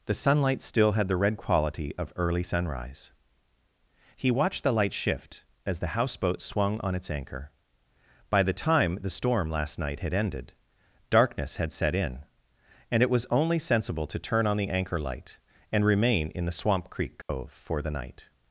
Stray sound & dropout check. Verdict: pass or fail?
fail